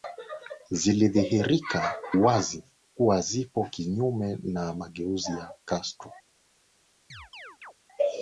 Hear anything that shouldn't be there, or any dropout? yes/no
yes